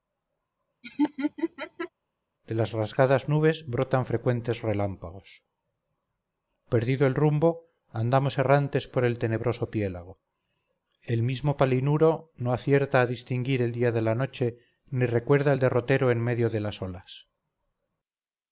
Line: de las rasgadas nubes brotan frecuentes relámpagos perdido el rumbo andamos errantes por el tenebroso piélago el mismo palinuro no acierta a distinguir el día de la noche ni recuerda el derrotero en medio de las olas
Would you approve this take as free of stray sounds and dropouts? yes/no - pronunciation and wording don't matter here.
no